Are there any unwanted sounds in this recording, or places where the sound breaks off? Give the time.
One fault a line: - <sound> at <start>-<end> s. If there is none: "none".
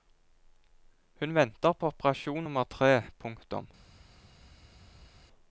none